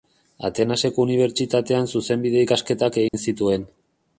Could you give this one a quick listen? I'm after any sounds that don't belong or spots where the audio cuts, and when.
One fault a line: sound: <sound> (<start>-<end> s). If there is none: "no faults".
sound: dropout (3.1-3.1 s)